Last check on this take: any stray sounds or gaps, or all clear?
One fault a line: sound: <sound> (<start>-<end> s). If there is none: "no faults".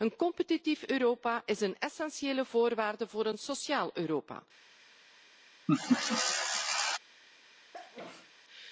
sound: laugh (5.7-7.0 s)
sound: sneeze (7.7-8.3 s)